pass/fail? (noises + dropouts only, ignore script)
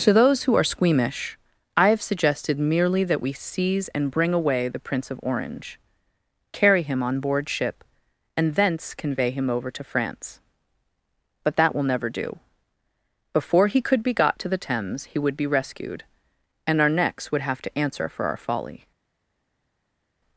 pass